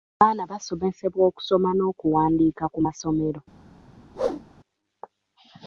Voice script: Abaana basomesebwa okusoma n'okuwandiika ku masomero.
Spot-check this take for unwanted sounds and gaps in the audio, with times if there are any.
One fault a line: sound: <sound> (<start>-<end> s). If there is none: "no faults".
sound: whoosh (4.1-4.4 s)